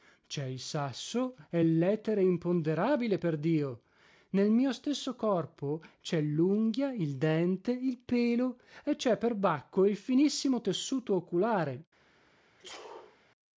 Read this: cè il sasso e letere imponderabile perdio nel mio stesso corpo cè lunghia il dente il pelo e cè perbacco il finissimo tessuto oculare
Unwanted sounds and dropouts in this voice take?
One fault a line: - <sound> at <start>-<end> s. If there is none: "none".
- sneeze at 12.6-13.2 s